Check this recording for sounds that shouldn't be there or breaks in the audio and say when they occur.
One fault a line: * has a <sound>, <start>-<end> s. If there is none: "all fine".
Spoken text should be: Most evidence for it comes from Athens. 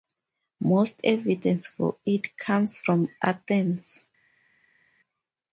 all fine